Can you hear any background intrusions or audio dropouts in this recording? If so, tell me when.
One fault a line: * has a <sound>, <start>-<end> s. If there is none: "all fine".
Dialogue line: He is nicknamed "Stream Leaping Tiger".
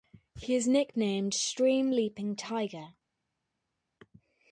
all fine